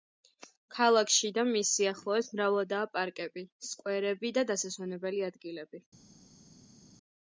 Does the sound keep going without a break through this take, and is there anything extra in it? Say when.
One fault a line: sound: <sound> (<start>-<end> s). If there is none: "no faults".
no faults